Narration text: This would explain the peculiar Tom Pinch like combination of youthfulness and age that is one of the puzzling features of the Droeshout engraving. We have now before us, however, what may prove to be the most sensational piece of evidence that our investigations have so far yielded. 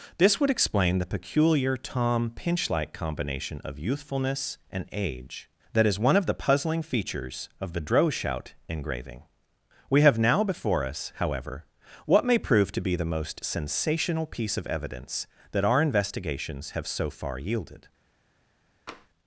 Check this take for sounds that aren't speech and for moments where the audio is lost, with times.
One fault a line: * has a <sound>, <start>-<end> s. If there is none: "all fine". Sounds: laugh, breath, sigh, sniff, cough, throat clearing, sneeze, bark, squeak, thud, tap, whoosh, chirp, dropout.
* has a tap, 18.9-19.1 s